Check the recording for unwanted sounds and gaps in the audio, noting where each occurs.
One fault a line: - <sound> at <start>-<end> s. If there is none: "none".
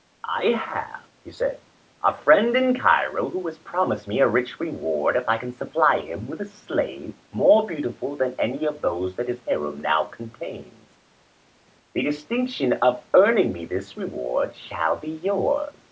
none